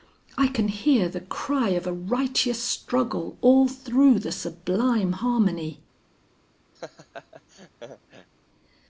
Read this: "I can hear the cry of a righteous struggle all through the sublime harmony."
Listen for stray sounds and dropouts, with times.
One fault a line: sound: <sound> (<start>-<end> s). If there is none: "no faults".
sound: laugh (6.8-8.3 s)